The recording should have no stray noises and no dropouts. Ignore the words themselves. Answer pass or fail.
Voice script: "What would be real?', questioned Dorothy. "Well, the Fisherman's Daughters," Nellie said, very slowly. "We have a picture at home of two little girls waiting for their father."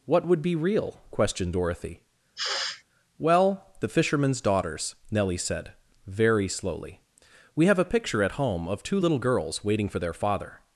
fail